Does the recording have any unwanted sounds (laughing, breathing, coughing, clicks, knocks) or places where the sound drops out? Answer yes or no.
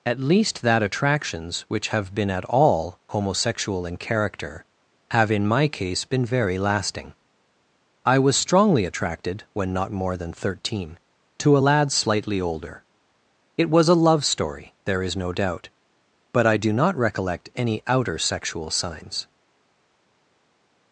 no